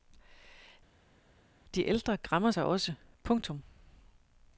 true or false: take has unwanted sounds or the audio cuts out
false